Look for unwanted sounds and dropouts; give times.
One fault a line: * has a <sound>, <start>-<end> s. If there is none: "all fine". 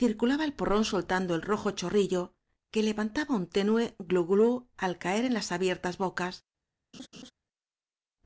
* has a laugh, 6.9-7.3 s